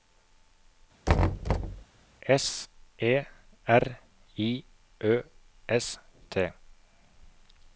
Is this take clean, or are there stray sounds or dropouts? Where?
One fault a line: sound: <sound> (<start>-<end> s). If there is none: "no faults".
sound: thud (1.1-1.8 s)